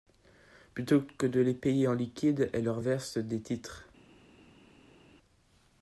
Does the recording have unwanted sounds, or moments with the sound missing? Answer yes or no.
no